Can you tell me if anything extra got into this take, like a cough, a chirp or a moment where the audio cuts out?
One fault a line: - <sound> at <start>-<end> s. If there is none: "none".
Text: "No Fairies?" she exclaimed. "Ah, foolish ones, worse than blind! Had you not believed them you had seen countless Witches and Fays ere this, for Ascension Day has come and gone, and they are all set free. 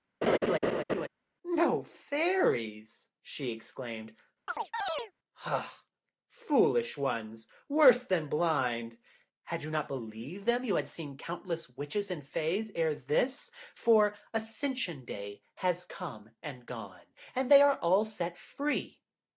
- laugh at 0.2-1.1 s
- chirp at 4.5-5.1 s